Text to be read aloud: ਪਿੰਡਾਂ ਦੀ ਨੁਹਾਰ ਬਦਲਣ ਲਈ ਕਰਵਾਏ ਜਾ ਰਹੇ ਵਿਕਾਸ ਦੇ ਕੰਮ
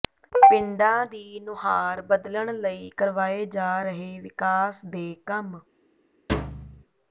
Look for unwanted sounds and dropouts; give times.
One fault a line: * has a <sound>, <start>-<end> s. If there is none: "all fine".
* has a thud, 6.3-6.8 s